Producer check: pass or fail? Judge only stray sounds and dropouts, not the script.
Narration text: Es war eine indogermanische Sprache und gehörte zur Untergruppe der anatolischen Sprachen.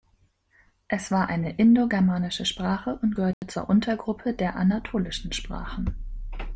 fail